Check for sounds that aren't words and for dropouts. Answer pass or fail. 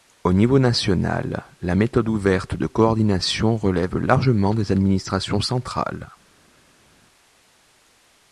pass